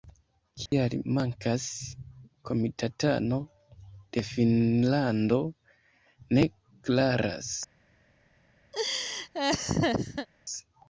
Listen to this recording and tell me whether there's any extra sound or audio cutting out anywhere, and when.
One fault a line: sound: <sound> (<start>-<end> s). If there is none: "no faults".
sound: dropout (0.7-0.7 s)
sound: laugh (8.7-10.3 s)